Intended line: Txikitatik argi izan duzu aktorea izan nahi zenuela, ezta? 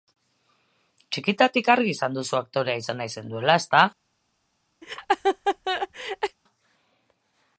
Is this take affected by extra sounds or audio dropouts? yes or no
yes